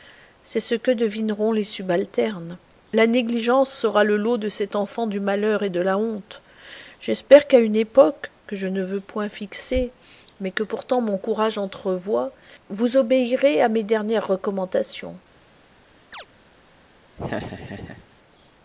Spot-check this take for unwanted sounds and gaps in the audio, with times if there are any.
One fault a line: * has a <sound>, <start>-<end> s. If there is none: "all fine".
* has a chirp, 16.1-16.3 s
* has a laugh, 17.2-18.1 s